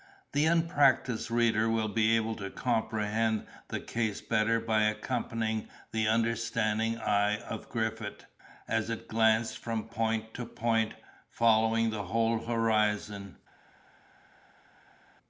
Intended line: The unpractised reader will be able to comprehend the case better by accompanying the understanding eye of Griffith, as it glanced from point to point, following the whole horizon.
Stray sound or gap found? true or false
false